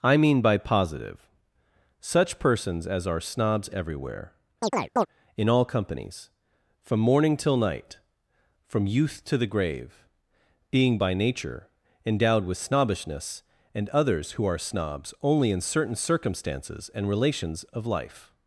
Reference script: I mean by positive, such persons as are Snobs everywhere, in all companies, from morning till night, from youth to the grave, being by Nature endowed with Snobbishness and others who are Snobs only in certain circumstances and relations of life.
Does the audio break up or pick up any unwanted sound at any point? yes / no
yes